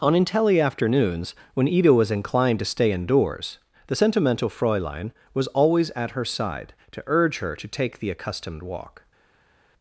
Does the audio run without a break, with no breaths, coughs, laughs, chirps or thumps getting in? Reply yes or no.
yes